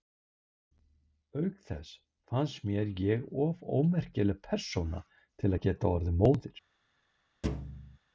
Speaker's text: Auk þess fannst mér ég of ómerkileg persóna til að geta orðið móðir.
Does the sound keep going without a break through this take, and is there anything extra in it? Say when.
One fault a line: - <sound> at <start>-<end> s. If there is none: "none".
- thud at 7.4-8.0 s